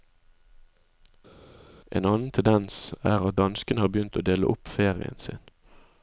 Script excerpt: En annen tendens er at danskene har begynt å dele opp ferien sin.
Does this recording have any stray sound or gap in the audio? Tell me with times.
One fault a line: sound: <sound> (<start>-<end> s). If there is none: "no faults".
no faults